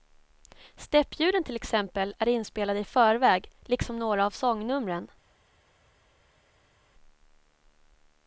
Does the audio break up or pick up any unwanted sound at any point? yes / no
no